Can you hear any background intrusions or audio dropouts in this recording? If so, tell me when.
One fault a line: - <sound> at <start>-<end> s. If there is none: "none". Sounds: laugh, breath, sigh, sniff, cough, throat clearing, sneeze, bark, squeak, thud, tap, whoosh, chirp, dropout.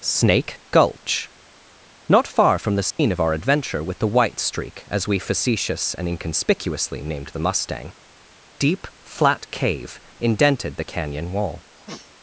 - dropout at 2.9-3.0 s
- sniff at 11.8-12.1 s